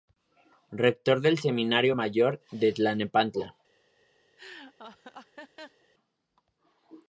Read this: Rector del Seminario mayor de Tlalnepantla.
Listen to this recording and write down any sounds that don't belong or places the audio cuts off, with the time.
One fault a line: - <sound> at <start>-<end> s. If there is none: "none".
- laugh at 4.4-5.9 s